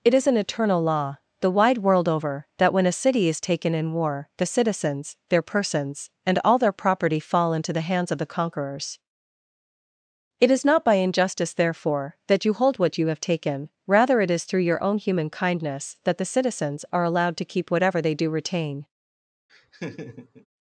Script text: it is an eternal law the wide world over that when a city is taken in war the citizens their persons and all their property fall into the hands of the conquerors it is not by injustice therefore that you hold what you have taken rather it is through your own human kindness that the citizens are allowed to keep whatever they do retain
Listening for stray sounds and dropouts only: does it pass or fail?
fail